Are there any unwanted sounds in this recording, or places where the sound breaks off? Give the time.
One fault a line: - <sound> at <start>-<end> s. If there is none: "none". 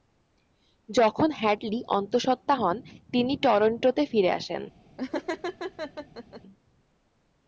- laugh at 5.0-6.4 s